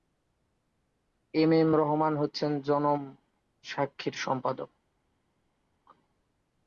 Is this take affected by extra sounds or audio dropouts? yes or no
no